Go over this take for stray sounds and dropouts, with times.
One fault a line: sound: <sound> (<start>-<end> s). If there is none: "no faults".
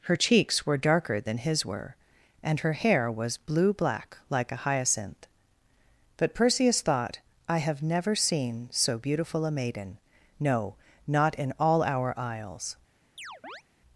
sound: chirp (13.2-13.6 s)